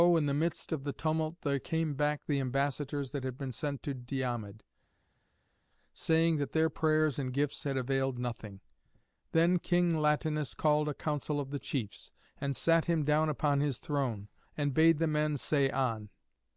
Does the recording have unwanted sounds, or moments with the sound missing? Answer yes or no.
no